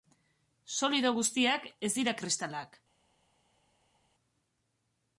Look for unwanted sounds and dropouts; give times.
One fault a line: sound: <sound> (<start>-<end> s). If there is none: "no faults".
no faults